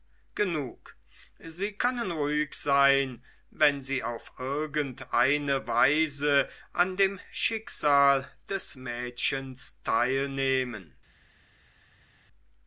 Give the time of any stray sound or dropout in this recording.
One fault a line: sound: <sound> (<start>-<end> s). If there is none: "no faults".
no faults